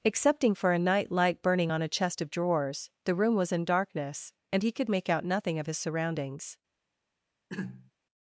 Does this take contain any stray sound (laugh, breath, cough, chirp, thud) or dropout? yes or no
yes